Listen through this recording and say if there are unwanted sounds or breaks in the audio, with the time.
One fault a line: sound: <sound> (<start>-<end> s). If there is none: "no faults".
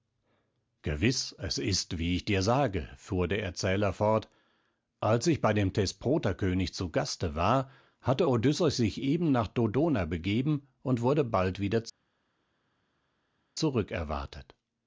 no faults